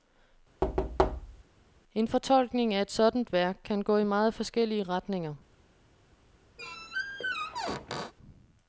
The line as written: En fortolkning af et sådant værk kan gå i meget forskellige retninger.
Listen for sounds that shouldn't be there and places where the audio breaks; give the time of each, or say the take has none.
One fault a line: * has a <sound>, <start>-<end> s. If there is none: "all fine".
* has a thud, 0.6-1.4 s
* has a squeak, 6.6-8.1 s